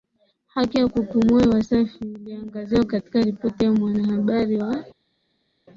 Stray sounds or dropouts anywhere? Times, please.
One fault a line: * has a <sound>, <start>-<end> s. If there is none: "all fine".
all fine